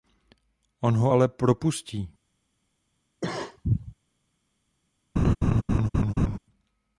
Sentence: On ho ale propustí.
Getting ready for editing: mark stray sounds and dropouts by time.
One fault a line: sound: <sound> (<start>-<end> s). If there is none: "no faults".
sound: cough (3.2-3.9 s)
sound: laugh (5.2-6.4 s)